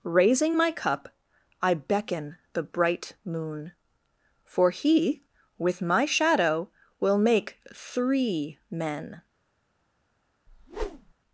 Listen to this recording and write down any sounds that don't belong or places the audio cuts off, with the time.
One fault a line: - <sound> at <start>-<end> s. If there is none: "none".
- whoosh at 10.5-11.1 s